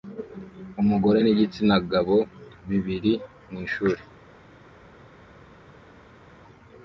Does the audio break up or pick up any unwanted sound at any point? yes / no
no